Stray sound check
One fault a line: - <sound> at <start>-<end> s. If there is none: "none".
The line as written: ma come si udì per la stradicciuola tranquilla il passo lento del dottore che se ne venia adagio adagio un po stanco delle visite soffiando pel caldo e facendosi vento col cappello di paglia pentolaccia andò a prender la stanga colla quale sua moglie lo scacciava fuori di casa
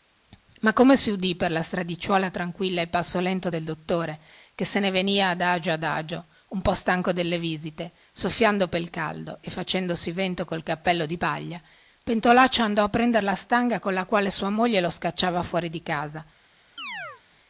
- chirp at 16.8-17.2 s